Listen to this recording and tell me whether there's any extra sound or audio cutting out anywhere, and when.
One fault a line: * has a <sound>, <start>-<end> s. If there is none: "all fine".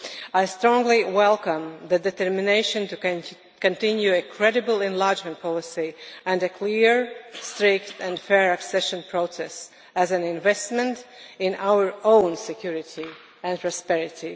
all fine